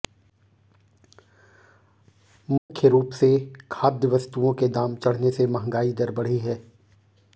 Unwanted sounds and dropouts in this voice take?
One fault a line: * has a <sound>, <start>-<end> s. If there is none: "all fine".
* has a dropout, 2.6-2.7 s